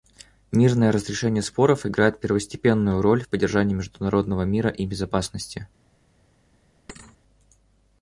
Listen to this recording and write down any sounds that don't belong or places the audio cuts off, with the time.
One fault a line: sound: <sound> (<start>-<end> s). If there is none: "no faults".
sound: thud (6.9-7.2 s)